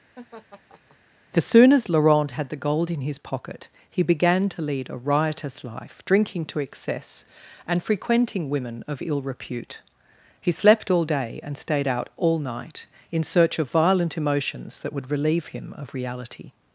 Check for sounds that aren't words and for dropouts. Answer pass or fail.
fail